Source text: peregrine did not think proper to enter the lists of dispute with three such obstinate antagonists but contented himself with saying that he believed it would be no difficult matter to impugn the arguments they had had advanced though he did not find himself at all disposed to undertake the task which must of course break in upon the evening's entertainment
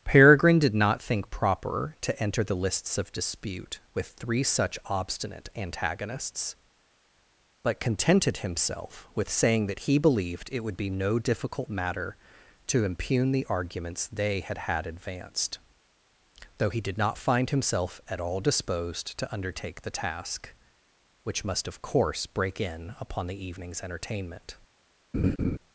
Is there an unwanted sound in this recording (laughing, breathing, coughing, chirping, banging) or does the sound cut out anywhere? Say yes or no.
yes